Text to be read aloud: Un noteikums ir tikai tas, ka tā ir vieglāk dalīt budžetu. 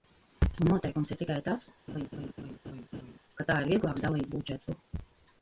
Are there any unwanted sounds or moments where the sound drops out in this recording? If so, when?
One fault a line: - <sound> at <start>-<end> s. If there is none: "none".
- laugh at 1.9-3.2 s